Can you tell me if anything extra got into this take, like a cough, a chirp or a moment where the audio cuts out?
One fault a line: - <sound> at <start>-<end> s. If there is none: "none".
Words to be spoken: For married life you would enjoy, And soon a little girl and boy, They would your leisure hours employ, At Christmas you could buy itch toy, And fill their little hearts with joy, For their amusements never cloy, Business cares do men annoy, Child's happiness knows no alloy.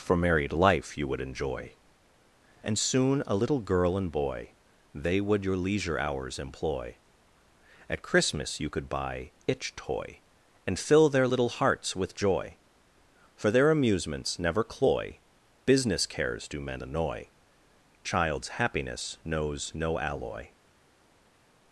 none